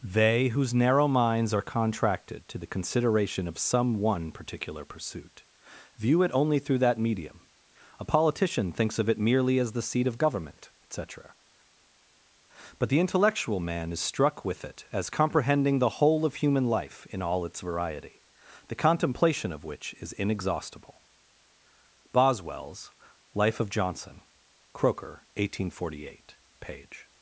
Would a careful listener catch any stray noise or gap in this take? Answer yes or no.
no